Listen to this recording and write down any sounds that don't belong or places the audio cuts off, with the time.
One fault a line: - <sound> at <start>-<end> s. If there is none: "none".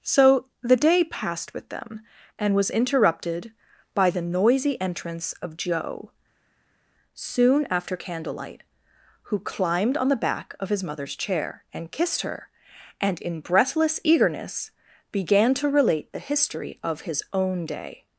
none